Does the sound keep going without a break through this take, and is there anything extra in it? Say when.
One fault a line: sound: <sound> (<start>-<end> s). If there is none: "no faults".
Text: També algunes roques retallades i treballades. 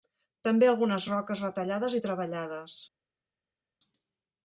no faults